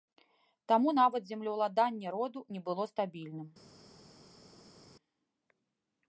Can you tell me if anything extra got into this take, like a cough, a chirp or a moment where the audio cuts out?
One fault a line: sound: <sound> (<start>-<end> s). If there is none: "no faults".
no faults